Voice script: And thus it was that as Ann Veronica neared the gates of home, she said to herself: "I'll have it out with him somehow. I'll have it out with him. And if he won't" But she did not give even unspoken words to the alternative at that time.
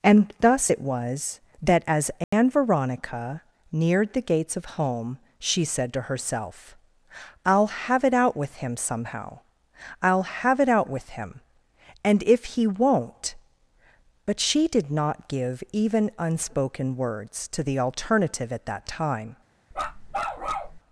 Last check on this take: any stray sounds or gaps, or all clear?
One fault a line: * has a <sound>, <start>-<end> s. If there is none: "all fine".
* has a dropout, 2.2-2.3 s
* has a bark, 19.7-20.8 s